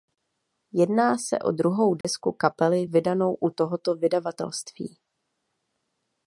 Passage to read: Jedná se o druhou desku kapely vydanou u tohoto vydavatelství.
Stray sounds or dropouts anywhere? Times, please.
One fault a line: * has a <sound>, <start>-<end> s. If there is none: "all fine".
* has a dropout, 2.0-2.0 s